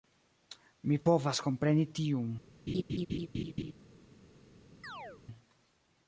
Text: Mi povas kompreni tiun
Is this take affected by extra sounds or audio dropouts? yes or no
yes